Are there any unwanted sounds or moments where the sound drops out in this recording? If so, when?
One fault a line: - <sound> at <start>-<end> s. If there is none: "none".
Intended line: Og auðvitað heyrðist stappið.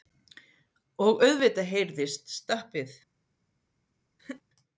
- laugh at 4.2-4.4 s